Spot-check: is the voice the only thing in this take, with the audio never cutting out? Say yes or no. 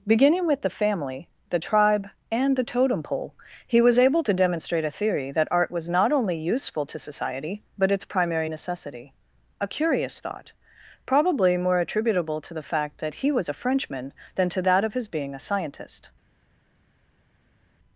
yes